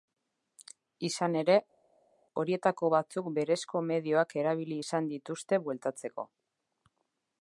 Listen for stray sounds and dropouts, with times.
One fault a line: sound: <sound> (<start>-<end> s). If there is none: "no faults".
no faults